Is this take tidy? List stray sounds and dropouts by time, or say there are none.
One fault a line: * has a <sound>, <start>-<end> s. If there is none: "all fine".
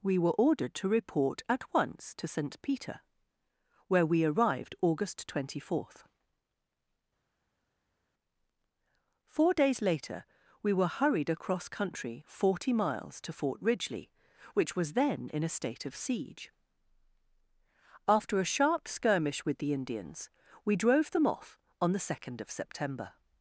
all fine